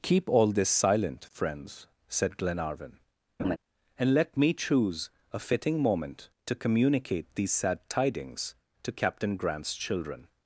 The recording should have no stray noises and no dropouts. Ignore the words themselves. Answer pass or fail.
fail